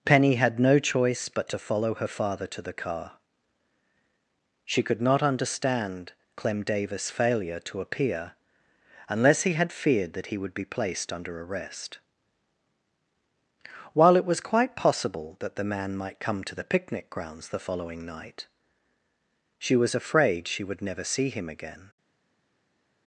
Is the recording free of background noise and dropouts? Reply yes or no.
yes